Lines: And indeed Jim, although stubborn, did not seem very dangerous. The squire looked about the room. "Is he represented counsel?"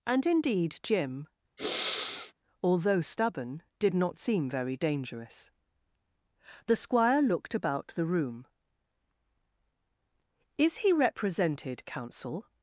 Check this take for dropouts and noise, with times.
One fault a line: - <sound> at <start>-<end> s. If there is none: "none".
- sniff at 1.6-2.3 s